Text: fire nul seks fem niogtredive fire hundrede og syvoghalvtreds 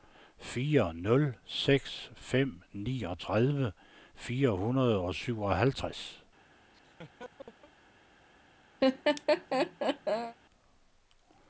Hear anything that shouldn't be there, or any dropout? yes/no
yes